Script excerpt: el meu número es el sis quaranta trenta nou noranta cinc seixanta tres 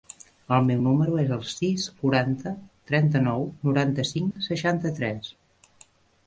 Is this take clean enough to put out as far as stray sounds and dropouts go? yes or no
no